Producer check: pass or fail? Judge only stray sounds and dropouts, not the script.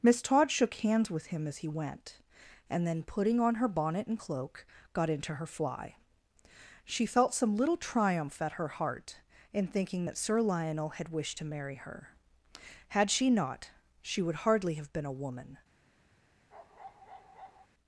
fail